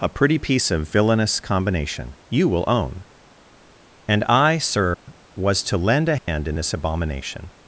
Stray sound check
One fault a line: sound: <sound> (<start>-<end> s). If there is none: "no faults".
sound: dropout (4.9-5.1 s)
sound: dropout (6.2-6.3 s)